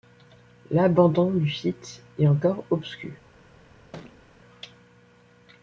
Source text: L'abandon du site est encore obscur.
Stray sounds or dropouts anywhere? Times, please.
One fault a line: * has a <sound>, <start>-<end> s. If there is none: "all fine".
* has a thud, 3.9-4.2 s